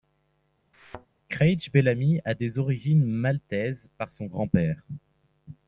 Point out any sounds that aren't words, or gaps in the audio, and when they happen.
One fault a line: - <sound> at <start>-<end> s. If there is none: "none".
- thud at 0.7-1.1 s